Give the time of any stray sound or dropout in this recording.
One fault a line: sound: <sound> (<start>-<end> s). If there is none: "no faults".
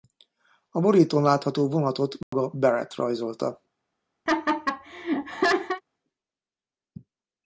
sound: dropout (2.2-2.3 s)
sound: laugh (4.3-5.8 s)